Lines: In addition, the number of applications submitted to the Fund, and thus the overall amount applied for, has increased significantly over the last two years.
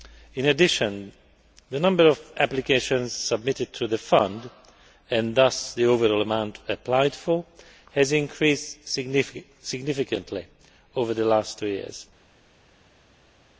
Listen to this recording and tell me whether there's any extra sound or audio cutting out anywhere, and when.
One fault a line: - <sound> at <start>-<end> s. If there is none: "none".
none